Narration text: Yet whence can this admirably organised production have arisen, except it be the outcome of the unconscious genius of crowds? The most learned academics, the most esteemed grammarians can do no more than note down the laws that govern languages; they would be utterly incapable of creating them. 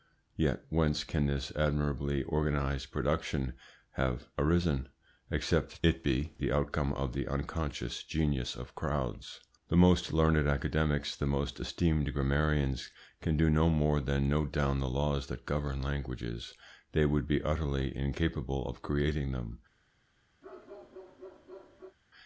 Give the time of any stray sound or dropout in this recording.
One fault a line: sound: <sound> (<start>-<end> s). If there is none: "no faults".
sound: bark (20.4-22.0 s)